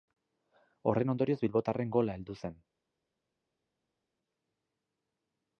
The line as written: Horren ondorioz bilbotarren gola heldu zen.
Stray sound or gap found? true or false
false